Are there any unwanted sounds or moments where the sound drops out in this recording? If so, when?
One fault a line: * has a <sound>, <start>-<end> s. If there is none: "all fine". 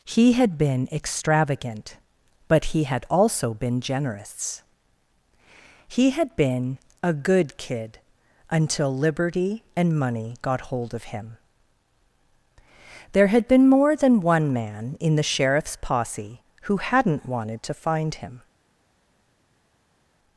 all fine